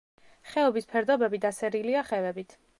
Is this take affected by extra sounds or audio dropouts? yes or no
no